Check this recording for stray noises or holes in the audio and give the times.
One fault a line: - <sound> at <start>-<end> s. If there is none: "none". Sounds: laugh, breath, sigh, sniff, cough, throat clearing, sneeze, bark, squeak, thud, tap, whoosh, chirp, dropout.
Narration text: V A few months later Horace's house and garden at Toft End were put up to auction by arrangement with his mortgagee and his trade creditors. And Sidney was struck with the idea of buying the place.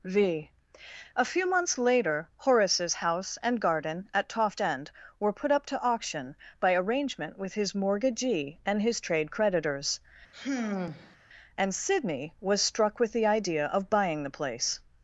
- sigh at 10.3-11.2 s